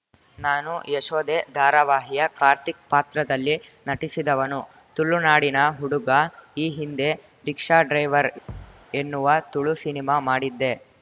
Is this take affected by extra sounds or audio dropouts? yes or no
yes